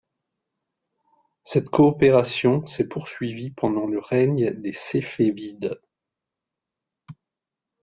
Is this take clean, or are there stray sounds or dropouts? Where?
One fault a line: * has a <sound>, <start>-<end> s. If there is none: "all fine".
all fine